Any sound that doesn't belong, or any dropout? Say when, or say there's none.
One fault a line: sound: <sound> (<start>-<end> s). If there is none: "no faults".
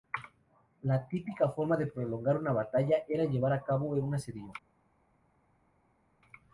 no faults